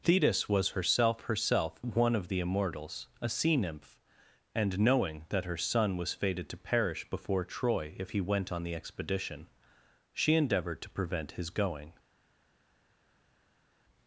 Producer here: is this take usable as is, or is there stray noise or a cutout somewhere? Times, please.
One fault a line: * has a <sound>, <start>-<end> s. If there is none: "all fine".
all fine